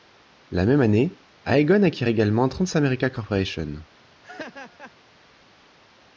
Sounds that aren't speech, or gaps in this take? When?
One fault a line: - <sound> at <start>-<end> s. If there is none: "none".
- laugh at 4.2-5.0 s